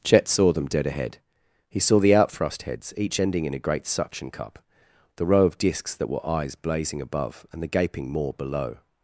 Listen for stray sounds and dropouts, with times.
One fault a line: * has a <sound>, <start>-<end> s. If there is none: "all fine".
all fine